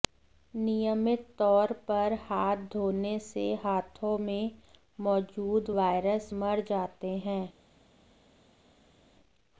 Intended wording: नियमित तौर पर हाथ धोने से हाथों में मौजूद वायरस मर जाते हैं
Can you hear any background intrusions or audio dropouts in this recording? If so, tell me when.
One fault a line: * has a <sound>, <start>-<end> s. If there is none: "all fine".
all fine